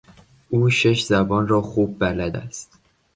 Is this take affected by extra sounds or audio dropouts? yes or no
no